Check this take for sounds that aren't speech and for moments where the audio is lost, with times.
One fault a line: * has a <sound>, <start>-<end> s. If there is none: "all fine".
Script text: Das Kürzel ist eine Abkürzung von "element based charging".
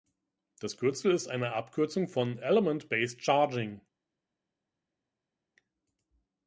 all fine